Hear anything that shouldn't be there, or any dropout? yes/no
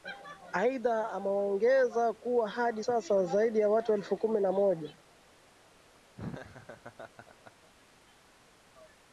yes